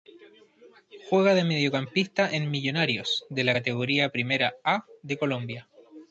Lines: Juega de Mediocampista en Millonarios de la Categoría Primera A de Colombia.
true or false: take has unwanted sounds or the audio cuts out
false